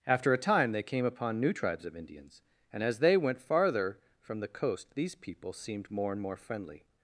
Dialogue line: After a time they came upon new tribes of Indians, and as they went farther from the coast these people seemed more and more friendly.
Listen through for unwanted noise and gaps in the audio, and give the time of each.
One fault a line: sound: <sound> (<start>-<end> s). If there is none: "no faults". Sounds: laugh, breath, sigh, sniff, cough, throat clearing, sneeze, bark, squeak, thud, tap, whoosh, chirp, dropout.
no faults